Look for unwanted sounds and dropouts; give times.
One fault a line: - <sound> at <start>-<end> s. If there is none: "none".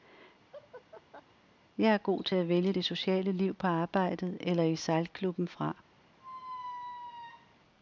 - laugh at 0.5-1.2 s
- squeak at 6.2-7.5 s